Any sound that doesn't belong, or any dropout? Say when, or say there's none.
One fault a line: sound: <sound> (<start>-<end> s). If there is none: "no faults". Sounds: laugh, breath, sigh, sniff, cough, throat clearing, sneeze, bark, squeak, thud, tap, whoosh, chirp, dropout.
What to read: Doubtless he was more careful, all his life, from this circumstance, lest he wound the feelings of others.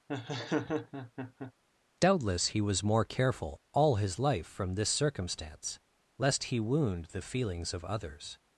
sound: laugh (0.1-1.5 s)